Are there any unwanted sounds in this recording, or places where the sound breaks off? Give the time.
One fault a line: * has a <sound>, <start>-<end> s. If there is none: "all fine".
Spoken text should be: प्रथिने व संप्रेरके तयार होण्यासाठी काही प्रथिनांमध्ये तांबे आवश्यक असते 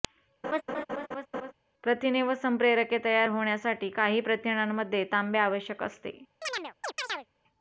* has a laugh, 0.4-1.5 s
* has a chirp, 6.4-7.3 s